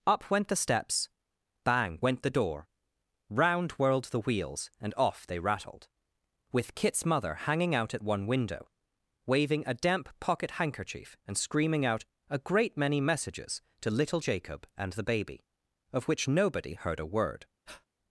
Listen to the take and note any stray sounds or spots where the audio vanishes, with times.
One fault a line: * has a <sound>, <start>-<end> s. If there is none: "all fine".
* has a breath, 17.7-17.9 s